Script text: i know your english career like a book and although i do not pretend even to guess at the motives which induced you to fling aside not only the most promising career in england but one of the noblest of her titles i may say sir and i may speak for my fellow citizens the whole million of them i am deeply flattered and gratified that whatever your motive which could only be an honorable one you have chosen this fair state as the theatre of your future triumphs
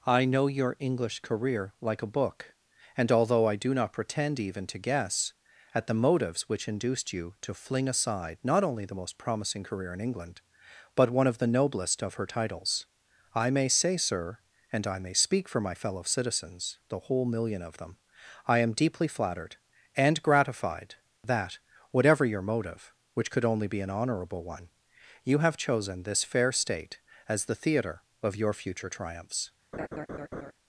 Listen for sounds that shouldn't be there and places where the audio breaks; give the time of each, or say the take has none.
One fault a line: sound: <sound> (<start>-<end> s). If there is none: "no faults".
sound: laugh (29.7-30.5 s)